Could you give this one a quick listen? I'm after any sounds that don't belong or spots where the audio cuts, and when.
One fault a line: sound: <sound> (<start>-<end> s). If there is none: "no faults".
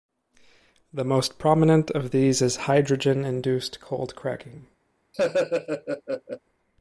sound: laugh (5.1-6.4 s)